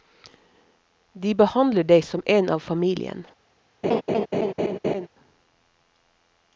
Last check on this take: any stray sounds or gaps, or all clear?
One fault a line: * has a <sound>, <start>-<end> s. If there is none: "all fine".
* has a laugh, 3.8-5.1 s